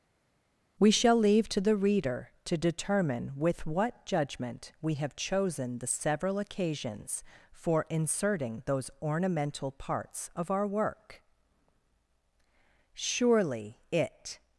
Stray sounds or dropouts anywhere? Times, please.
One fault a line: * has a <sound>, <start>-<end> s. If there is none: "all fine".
all fine